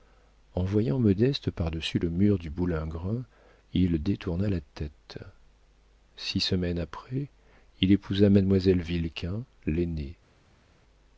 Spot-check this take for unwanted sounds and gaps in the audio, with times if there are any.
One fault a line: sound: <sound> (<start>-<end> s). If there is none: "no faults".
no faults